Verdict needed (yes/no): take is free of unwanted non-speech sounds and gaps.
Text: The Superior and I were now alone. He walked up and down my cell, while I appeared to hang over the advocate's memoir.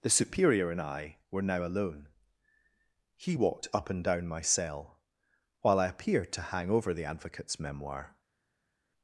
yes